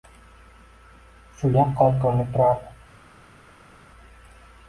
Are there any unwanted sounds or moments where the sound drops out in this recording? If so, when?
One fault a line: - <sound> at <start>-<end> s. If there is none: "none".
none